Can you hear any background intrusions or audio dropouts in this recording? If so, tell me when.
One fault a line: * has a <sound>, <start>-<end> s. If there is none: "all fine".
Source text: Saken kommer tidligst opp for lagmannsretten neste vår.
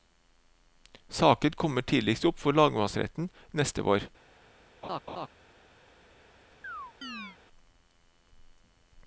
* has a laugh, 4.8-5.3 s
* has a chirp, 6.6-7.4 s